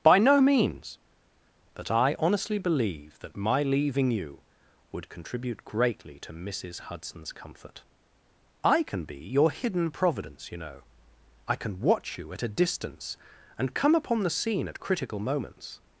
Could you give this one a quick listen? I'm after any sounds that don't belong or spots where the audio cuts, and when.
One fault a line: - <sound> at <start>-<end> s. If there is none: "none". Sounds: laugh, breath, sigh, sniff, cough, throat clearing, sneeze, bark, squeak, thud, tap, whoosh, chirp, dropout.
none